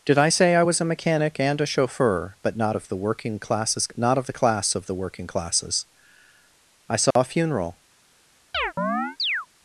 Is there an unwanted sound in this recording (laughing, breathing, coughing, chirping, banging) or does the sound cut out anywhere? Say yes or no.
yes